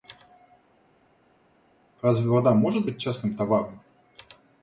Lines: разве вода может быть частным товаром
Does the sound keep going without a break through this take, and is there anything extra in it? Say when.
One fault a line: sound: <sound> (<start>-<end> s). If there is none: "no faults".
no faults